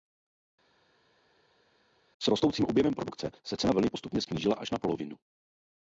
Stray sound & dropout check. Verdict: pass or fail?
pass